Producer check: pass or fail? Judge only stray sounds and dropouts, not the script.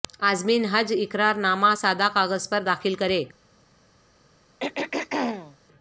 fail